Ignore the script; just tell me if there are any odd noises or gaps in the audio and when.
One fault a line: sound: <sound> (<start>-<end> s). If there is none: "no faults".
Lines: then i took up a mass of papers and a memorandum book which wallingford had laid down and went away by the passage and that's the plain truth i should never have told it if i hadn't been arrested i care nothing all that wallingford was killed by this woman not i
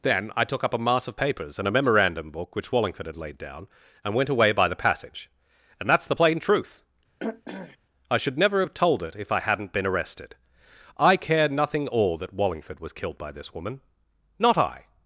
sound: throat clearing (7.2-7.8 s)